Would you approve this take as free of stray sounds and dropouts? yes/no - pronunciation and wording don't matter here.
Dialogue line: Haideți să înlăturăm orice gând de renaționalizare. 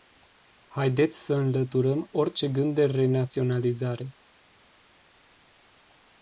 yes